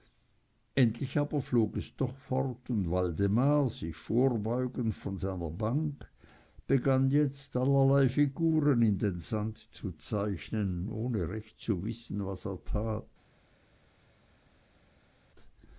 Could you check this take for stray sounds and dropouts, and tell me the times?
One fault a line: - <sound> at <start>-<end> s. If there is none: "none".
none